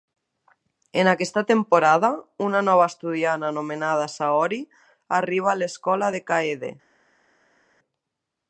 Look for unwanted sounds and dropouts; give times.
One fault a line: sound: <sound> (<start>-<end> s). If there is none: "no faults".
no faults